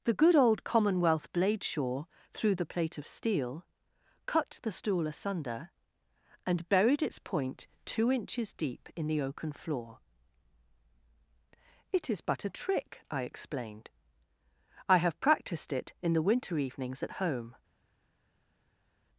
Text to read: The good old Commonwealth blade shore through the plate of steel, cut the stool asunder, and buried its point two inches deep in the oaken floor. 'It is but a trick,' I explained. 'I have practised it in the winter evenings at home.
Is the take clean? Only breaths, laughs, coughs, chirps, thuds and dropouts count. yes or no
yes